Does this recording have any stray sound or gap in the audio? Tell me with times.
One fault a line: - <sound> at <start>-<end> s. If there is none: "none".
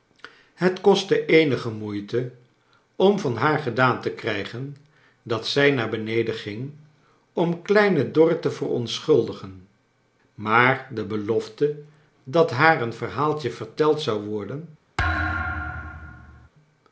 - thud at 15.0-16.5 s